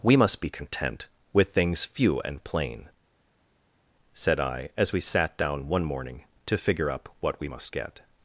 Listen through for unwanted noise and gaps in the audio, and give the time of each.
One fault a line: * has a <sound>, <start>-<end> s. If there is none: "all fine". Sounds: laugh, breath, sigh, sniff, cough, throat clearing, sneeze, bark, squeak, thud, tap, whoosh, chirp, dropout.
all fine